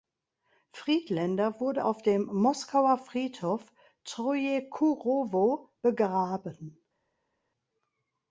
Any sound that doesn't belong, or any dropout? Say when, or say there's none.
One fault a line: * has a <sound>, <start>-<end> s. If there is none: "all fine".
all fine